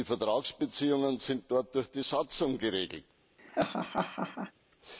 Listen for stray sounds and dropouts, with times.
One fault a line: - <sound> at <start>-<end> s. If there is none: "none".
- laugh at 3.4-4.5 s